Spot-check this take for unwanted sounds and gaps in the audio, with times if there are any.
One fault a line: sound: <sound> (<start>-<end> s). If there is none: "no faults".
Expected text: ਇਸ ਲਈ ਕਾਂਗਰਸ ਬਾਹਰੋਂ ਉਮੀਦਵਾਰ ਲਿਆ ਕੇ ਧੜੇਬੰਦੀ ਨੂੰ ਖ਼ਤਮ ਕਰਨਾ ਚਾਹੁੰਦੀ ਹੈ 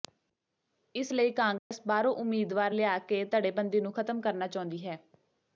sound: dropout (1.6-1.7 s)